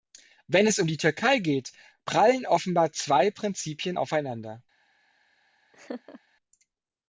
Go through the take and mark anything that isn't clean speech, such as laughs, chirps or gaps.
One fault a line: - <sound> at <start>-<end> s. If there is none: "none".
- laugh at 5.7-6.2 s